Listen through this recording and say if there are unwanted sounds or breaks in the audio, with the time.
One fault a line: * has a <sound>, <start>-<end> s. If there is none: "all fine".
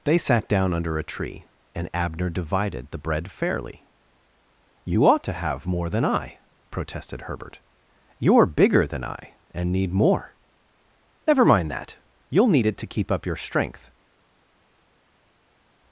all fine